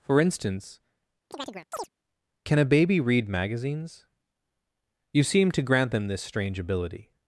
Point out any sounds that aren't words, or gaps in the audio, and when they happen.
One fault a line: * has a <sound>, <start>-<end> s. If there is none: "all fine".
* has a chirp, 1.3-1.9 s